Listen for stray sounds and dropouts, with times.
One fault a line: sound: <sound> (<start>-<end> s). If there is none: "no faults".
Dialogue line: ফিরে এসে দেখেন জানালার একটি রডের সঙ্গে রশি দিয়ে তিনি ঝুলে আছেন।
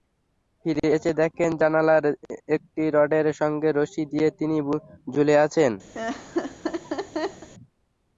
sound: laugh (5.9-7.5 s)